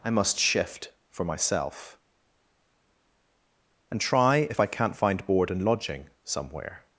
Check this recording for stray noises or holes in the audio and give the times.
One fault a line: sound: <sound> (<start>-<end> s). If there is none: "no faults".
no faults